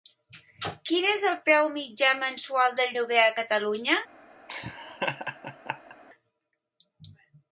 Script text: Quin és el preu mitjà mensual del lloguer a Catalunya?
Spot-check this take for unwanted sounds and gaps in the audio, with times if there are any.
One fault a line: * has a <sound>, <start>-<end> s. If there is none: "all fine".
* has a laugh, 4.5-6.0 s